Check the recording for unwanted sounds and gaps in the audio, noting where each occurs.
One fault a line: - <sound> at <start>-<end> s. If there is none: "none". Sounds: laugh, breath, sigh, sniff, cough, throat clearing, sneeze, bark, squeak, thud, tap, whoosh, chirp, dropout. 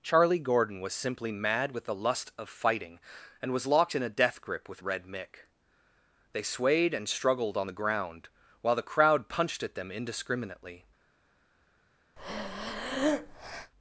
- breath at 12.2-13.7 s